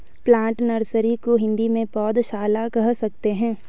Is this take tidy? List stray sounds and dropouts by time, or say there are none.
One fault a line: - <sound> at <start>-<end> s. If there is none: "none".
none